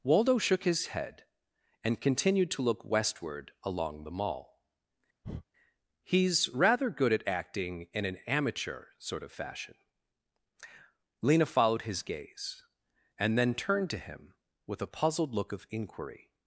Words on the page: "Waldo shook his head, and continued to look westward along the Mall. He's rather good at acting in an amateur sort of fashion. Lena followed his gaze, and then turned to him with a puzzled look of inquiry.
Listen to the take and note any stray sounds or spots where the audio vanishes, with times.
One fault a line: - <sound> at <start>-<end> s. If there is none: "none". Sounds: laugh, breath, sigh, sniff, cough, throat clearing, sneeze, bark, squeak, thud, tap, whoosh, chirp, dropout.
- breath at 5.2-5.4 s